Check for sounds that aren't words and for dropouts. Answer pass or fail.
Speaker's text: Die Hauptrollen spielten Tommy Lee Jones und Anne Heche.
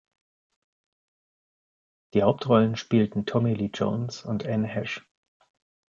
pass